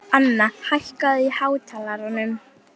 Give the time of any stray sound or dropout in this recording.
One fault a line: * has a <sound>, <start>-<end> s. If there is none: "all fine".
all fine